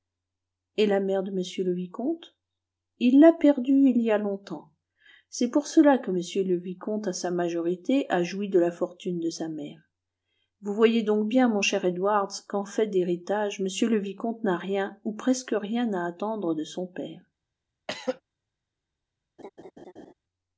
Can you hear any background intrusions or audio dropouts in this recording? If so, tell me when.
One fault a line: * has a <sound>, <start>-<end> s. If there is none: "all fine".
* has a throat clearing, 17.9-18.2 s
* has a laugh, 19.4-20.1 s